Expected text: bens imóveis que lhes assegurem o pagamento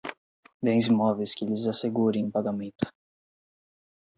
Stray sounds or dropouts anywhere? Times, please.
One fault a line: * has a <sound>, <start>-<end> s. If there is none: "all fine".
all fine